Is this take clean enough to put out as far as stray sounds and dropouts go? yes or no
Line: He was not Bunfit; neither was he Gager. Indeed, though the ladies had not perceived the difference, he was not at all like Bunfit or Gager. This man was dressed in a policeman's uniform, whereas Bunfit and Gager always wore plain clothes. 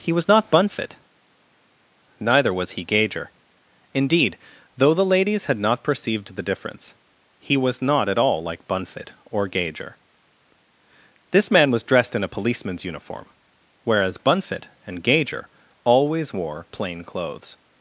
yes